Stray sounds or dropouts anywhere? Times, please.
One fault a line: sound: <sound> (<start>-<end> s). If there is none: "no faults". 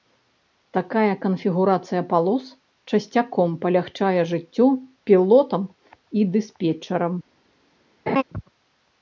sound: laugh (8.1-8.2 s)